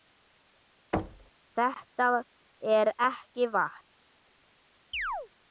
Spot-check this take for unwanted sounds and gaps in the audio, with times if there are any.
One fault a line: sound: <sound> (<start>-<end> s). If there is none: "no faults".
sound: thud (0.9-1.3 s)
sound: chirp (4.9-5.3 s)